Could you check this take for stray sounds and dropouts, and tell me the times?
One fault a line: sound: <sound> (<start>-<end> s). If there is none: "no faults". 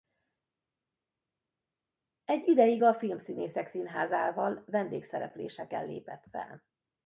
no faults